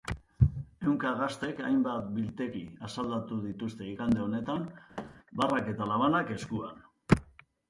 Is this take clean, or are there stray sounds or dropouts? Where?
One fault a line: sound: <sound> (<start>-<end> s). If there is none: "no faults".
sound: thud (5.0-5.2 s)